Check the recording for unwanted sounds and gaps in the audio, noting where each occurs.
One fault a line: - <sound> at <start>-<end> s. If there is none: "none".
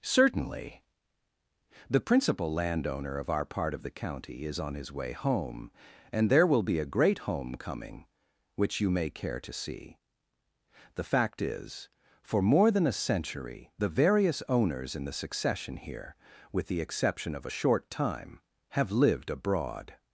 none